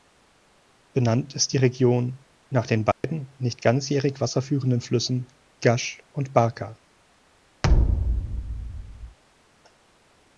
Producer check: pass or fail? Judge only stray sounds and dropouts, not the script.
fail